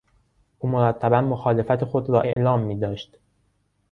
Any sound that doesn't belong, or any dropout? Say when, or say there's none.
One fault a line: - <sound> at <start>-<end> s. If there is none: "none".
- dropout at 2.3-2.4 s